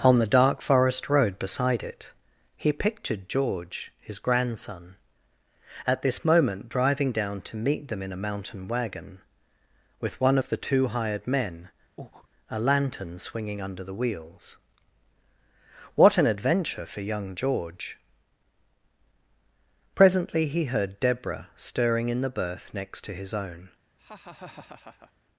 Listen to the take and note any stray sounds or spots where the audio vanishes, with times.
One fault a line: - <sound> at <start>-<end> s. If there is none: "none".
- breath at 12.0-12.3 s
- laugh at 24.0-25.1 s